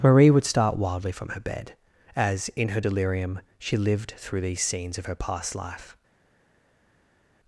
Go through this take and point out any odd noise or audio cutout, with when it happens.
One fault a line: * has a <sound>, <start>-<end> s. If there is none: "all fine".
all fine